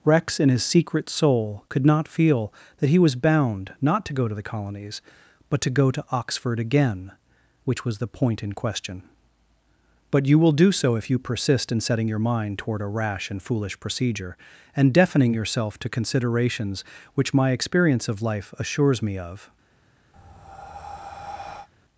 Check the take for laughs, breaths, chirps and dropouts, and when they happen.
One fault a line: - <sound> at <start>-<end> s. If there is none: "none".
- breath at 20.1-21.7 s